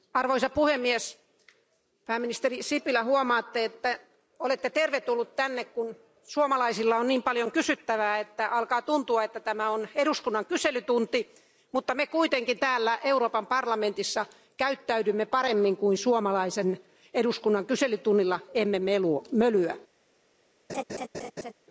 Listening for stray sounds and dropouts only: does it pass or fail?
fail